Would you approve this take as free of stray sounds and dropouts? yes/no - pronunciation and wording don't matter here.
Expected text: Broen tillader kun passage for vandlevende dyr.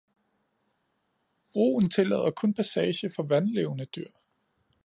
yes